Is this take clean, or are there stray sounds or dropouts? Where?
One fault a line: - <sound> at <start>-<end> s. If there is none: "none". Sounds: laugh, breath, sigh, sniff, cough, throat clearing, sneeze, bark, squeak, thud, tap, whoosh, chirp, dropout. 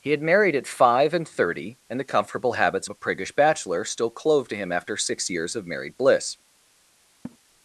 - laugh at 7.2-7.4 s